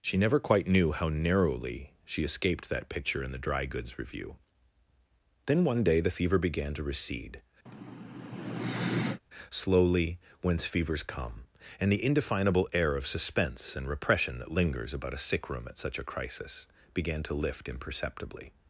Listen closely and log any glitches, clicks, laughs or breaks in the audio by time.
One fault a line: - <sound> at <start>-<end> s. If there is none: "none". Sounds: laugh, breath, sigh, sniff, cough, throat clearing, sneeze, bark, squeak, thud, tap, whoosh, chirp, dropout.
- sigh at 7.7-9.2 s